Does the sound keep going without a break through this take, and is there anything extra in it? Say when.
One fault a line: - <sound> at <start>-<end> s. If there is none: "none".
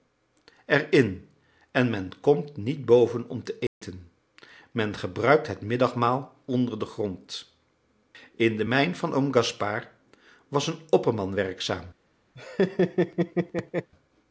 - dropout at 3.7-3.8 s
- laugh at 12.3-13.9 s